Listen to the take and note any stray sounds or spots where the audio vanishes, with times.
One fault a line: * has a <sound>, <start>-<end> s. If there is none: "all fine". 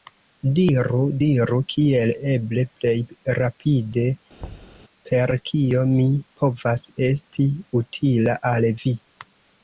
* has a thud, 4.4-4.8 s